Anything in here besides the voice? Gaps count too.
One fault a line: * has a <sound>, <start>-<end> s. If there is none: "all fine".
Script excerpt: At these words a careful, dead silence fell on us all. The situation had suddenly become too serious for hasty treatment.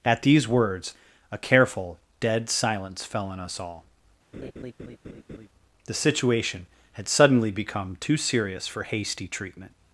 * has a laugh, 4.3-5.5 s